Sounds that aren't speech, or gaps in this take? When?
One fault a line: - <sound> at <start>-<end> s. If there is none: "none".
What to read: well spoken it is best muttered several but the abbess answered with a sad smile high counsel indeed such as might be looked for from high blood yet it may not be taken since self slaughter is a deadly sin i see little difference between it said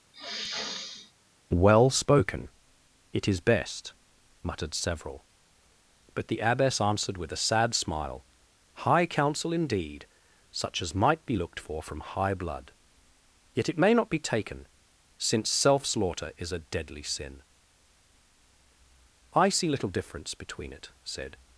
- sniff at 0.1-1.1 s